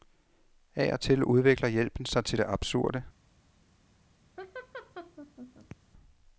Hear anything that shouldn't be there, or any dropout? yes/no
yes